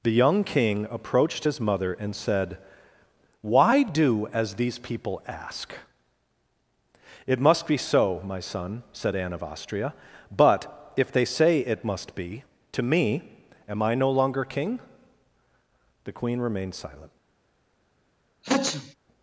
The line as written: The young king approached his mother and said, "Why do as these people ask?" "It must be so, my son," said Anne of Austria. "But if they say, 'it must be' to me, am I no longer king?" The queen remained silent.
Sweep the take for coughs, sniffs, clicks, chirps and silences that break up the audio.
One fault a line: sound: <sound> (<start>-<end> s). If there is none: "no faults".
sound: sneeze (18.4-18.9 s)